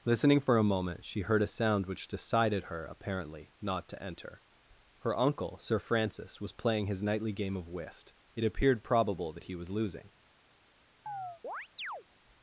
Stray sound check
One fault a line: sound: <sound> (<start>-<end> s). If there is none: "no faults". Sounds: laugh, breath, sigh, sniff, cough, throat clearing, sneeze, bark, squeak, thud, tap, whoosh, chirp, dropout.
sound: chirp (11.1-12.0 s)